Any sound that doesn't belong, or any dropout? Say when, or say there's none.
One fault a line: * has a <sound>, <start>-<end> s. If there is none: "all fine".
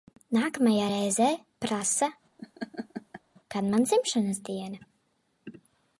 * has a laugh, 2.4-3.2 s